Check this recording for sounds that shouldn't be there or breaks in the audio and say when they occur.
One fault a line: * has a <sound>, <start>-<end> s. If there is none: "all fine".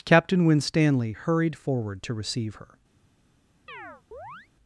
* has a chirp, 3.7-4.5 s